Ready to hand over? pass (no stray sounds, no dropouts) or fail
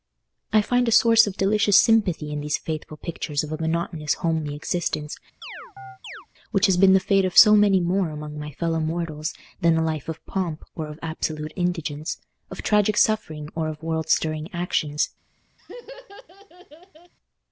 fail